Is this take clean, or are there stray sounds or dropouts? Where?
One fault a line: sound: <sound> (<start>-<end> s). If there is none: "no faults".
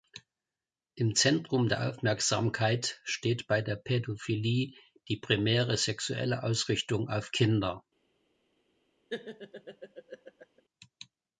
sound: laugh (9.1-10.6 s)